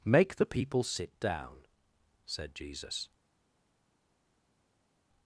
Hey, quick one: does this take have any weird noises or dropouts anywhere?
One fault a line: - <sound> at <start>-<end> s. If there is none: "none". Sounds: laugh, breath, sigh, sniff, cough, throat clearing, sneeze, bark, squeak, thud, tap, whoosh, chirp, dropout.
none